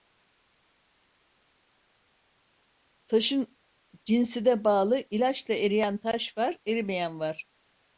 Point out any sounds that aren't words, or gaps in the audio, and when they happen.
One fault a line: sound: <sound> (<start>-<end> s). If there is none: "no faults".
no faults